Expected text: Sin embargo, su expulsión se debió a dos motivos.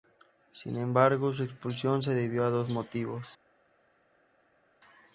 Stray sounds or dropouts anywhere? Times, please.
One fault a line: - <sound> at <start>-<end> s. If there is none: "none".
none